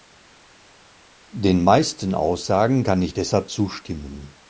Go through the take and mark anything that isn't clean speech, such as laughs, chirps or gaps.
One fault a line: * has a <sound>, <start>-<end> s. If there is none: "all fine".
all fine